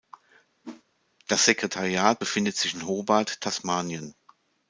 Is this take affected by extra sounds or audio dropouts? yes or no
yes